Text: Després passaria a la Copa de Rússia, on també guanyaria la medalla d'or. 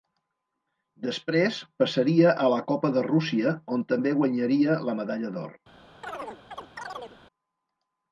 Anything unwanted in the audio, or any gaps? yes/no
yes